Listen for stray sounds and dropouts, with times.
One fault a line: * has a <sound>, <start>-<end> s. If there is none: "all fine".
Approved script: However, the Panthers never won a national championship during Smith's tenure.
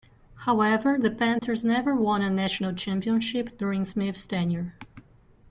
* has a dropout, 1.4-1.4 s